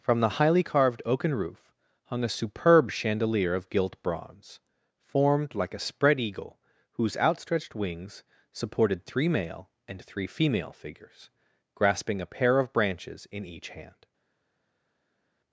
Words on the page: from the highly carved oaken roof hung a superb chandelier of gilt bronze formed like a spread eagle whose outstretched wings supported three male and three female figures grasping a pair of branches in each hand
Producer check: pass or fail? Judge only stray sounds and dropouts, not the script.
pass